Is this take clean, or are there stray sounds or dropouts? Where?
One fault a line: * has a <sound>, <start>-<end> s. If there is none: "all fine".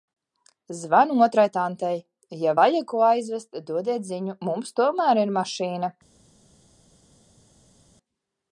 all fine